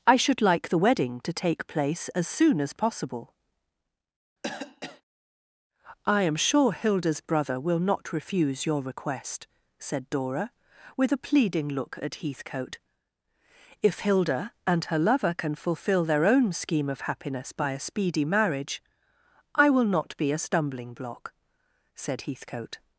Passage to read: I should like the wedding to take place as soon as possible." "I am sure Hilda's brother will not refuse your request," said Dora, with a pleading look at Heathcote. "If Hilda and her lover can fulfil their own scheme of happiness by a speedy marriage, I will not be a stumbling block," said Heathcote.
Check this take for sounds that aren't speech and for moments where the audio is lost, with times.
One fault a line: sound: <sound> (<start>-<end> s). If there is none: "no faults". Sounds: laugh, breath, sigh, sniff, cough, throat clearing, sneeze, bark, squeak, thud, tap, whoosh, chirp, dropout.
sound: cough (4.4-5.0 s)